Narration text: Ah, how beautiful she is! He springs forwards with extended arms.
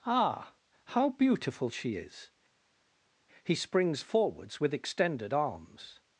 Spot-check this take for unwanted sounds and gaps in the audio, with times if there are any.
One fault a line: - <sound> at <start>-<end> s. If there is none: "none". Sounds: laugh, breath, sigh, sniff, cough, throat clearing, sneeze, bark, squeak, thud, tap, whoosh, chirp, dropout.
none